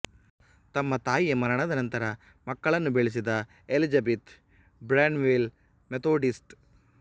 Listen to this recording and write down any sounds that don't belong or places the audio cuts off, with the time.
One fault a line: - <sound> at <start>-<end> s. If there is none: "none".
none